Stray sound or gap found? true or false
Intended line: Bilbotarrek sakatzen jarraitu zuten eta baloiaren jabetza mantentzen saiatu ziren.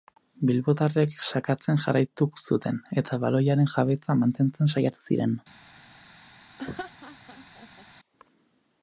true